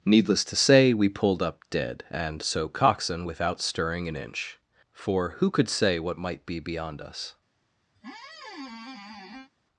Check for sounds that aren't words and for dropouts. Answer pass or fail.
fail